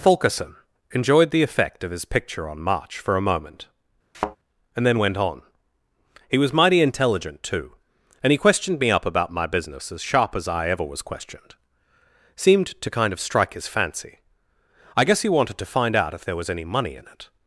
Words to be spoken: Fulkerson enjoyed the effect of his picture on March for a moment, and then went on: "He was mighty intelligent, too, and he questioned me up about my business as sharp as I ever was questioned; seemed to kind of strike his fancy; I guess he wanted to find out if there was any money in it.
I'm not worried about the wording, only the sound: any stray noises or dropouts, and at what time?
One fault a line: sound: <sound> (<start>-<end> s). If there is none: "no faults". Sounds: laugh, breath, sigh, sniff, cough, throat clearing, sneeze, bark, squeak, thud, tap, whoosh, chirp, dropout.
sound: thud (4.1-4.4 s)